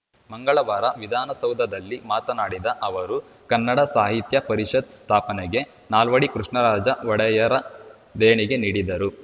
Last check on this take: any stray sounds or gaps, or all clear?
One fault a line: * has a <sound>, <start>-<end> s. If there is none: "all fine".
all fine